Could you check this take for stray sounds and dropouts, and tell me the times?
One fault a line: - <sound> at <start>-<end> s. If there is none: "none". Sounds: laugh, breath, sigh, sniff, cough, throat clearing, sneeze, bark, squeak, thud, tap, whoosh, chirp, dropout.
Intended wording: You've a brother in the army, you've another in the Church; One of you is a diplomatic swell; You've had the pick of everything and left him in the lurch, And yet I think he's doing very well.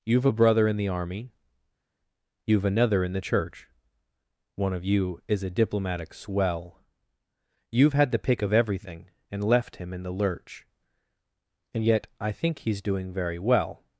none